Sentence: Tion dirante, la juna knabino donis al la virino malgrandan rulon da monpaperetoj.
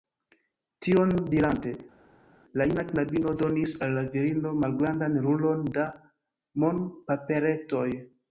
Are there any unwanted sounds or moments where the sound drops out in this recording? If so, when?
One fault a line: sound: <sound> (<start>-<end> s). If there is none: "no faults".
no faults